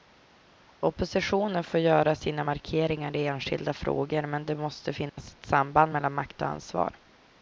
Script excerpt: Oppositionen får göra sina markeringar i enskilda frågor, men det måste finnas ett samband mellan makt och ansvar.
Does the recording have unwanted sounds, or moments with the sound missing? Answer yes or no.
yes